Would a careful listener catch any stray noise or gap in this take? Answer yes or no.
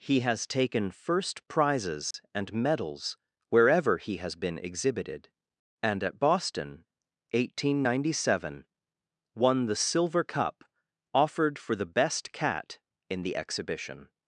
yes